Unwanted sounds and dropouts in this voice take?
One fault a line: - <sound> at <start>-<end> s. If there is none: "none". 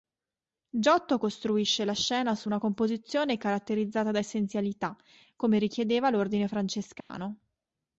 - dropout at 7.0-7.1 s